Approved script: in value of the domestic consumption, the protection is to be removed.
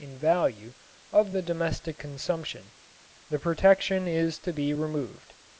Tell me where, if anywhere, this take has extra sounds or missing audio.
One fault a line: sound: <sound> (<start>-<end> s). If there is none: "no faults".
no faults